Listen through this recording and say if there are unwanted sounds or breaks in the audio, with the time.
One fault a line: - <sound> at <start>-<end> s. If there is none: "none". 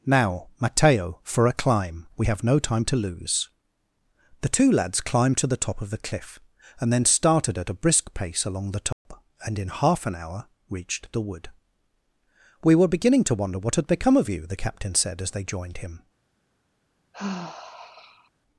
- dropout at 8.9-9.1 s
- sigh at 17.1-18.3 s